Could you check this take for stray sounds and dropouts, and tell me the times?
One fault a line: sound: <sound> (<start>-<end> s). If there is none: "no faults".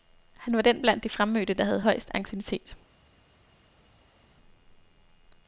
no faults